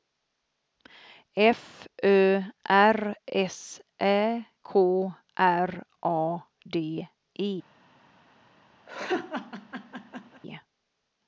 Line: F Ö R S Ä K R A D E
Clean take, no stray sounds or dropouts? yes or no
no